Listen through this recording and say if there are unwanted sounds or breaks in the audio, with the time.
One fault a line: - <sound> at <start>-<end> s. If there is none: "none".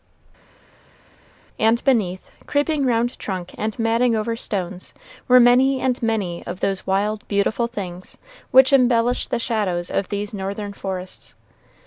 none